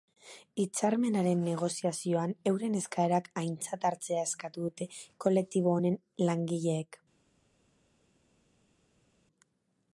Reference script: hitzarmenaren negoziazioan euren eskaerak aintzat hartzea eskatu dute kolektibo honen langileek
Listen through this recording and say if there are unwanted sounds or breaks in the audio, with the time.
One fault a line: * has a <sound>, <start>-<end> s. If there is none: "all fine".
all fine